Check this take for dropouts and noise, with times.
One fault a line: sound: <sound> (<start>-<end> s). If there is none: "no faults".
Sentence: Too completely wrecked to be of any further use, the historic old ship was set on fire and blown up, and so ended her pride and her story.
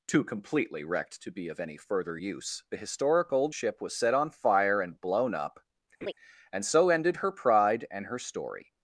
sound: laugh (6.0-6.1 s)